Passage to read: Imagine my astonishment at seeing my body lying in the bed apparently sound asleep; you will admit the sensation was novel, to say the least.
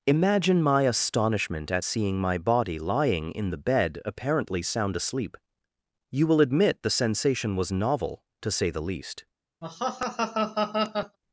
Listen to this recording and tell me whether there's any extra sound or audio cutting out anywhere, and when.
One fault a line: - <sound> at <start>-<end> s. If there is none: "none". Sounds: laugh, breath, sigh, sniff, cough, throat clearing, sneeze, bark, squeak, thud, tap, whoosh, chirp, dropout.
- laugh at 9.6-11.2 s